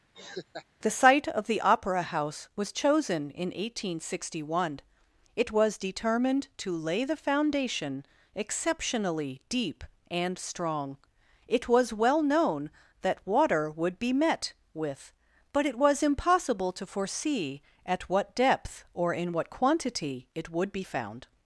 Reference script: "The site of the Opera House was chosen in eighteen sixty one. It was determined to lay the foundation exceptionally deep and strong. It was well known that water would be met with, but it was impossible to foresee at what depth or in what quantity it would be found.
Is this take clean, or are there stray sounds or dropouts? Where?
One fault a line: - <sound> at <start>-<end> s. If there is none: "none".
- laugh at 0.1-0.7 s